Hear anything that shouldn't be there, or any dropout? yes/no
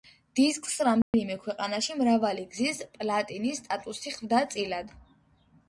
yes